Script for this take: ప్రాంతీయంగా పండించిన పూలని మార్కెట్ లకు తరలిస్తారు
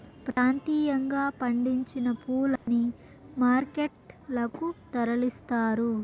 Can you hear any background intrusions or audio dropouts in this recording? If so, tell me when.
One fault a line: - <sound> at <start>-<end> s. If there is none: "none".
- dropout at 0.3-0.4 s
- dropout at 2.6-2.7 s